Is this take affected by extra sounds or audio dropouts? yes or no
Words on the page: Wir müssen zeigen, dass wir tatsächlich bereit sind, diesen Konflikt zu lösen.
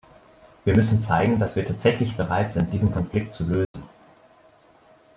yes